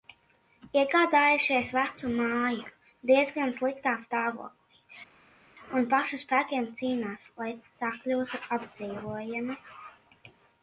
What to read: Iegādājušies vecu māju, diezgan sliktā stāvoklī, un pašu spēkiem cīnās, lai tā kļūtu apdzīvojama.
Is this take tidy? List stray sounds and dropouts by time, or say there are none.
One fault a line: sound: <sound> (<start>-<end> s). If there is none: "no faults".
no faults